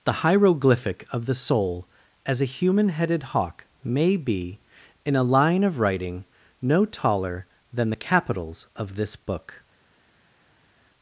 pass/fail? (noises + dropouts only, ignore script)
pass